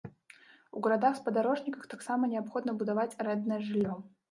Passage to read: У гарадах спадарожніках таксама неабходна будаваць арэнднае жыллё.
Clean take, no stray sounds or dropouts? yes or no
yes